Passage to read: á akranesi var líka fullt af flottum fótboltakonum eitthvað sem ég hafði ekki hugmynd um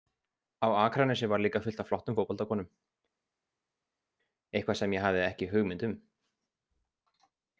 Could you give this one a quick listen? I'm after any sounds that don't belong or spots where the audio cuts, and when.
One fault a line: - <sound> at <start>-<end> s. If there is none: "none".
none